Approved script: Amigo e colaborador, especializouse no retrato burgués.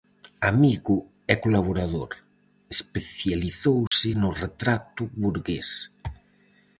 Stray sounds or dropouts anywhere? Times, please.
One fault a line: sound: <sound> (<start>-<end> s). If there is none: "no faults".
sound: dropout (3.9-3.9 s)